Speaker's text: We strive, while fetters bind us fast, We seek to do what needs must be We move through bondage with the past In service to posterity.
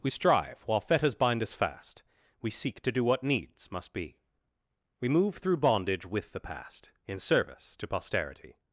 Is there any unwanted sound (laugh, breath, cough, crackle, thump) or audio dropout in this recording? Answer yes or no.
no